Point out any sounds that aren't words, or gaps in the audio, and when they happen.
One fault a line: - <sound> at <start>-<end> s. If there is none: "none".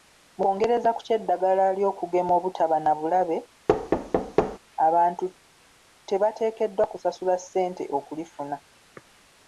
- thud at 3.7-4.6 s